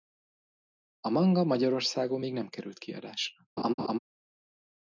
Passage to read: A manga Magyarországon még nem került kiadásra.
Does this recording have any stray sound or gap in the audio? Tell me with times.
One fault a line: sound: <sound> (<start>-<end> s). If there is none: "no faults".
sound: laugh (3.6-4.0 s)